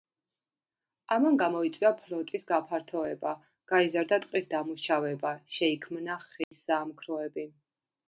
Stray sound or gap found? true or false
true